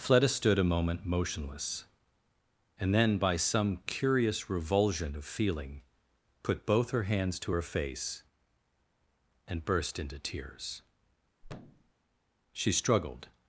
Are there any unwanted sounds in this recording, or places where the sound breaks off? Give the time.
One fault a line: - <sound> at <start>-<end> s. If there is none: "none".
- thud at 11.4-11.9 s